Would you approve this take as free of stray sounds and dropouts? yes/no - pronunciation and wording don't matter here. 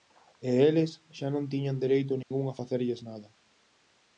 no